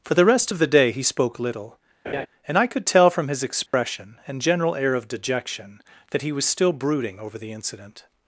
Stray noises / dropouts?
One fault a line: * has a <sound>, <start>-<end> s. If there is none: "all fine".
* has a laugh, 2.0-2.3 s
* has a dropout, 3.7-3.7 s